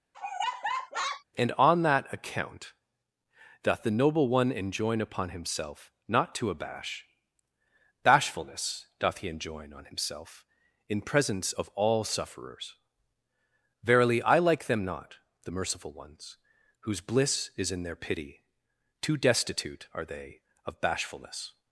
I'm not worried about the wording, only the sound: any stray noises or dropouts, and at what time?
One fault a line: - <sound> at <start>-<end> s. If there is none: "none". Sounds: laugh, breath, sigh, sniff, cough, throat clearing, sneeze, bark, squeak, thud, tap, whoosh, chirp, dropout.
- laugh at 0.1-1.2 s